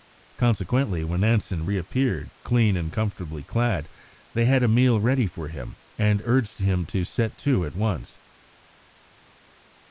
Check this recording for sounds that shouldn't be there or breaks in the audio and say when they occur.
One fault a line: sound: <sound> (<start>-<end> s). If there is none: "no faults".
no faults